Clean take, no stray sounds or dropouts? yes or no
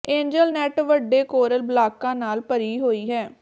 yes